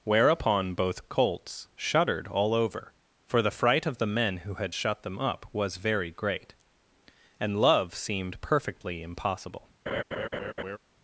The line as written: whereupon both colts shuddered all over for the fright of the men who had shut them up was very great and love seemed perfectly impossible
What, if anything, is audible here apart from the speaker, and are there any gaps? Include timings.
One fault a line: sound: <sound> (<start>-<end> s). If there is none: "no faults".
sound: laugh (9.9-10.8 s)